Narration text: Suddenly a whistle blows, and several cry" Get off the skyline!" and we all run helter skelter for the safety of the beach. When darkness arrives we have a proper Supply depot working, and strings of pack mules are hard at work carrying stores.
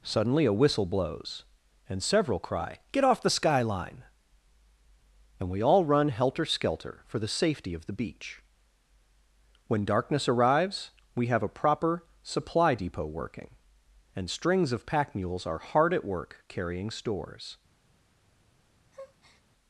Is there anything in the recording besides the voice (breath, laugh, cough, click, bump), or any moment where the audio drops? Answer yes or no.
yes